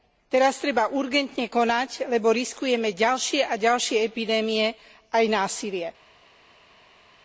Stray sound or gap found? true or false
false